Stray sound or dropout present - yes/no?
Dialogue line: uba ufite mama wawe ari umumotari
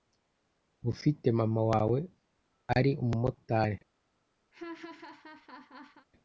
yes